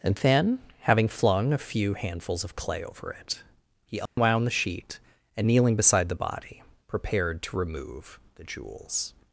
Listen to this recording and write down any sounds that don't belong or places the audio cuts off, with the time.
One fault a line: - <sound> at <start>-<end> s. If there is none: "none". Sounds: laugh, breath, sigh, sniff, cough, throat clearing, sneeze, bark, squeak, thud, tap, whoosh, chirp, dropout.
- dropout at 4.1-4.2 s